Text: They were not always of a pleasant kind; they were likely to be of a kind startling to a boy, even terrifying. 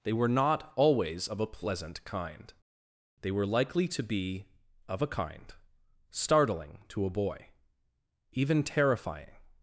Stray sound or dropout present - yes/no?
no